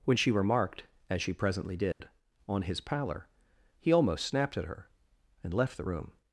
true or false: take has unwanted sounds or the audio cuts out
true